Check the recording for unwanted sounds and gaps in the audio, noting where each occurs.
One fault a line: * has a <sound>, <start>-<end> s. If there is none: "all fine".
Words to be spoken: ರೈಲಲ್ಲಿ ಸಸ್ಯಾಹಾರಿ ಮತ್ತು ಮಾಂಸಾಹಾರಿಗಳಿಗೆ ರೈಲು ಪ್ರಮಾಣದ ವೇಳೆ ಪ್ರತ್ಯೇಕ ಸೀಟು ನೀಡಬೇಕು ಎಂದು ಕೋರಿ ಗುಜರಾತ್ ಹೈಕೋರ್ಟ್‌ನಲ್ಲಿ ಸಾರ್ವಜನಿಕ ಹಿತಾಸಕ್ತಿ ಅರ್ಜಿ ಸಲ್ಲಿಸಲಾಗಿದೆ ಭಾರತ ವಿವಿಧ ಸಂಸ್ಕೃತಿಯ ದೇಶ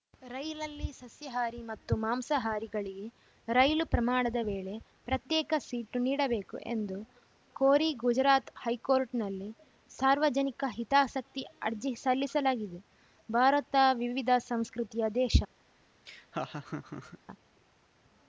* has a laugh, 16.1-17.2 s